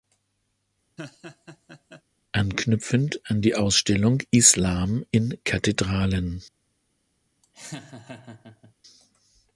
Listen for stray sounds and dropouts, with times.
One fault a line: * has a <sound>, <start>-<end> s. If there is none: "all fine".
* has a laugh, 1.0-2.0 s
* has a laugh, 7.4-8.7 s